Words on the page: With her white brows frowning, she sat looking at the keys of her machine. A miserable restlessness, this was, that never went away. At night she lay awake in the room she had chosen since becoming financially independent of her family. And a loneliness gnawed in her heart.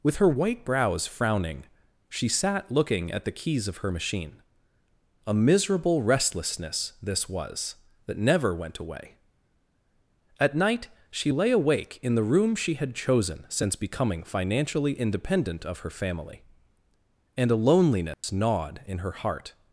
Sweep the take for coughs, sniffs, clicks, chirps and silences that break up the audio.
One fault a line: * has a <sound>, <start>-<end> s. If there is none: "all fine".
* has a dropout, 18.1-18.2 s